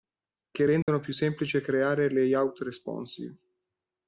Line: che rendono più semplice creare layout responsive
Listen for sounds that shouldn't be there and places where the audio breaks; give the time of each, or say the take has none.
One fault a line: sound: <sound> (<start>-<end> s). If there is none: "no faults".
sound: dropout (0.8-0.9 s)